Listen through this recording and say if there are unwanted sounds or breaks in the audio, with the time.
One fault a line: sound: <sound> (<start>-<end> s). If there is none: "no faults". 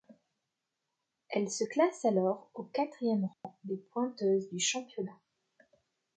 sound: dropout (3.3-3.4 s)